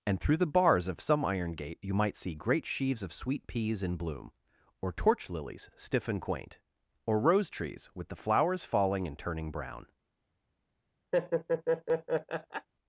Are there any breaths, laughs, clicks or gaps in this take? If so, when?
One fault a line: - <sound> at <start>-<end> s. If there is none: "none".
- laugh at 11.1-12.7 s